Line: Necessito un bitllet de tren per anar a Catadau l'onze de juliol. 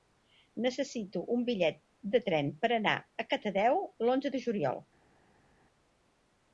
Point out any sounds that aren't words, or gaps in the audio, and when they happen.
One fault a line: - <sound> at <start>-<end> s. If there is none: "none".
none